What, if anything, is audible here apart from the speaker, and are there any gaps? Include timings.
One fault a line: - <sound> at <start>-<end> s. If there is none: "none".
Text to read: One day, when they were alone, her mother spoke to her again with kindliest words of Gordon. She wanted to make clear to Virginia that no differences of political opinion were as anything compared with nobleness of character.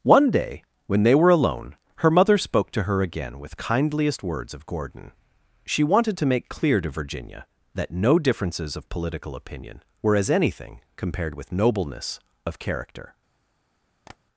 - tap at 14.1-14.2 s